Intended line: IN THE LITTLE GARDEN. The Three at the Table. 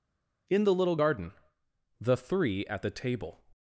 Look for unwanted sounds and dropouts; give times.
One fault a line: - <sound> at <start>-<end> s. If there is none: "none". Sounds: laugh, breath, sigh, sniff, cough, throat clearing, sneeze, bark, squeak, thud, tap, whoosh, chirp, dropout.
none